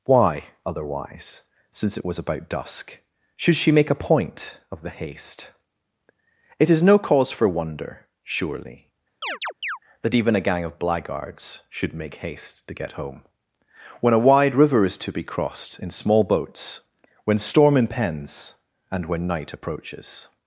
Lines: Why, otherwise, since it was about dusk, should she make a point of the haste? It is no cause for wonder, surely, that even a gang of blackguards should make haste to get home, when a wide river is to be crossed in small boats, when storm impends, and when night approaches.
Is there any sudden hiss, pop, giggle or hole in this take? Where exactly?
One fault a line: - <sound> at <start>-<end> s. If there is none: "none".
- chirp at 9.2-9.8 s